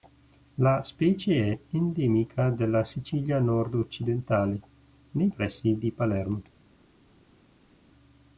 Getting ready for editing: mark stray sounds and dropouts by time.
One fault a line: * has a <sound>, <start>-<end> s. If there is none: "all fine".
all fine